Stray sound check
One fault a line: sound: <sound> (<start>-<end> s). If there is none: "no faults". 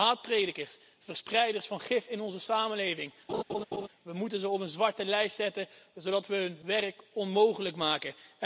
sound: laugh (3.3-3.9 s)